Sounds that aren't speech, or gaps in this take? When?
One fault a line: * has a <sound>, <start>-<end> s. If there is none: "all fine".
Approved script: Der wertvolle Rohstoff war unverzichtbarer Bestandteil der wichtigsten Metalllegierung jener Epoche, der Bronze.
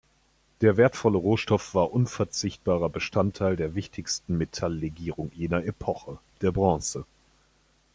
all fine